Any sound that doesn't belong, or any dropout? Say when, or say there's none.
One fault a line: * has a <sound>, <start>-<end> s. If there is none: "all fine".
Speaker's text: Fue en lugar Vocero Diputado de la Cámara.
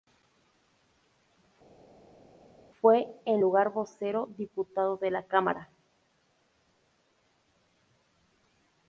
all fine